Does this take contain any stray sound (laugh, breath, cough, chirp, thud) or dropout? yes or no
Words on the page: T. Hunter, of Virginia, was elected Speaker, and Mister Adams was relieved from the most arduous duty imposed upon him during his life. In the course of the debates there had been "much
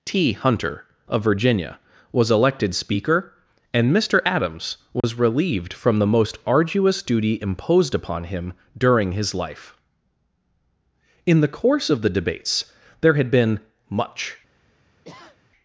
yes